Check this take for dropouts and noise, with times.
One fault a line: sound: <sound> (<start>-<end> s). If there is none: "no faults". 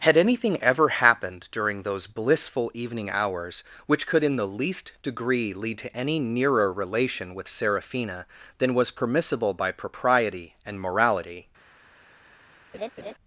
sound: laugh (12.7-13.1 s)